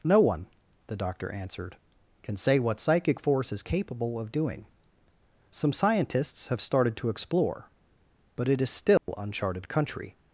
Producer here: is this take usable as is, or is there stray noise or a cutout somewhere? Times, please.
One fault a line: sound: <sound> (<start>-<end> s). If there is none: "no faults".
sound: dropout (9.0-9.1 s)